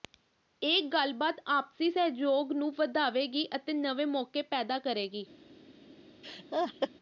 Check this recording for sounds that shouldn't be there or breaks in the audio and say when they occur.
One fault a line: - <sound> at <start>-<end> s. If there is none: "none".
- laugh at 6.2-6.9 s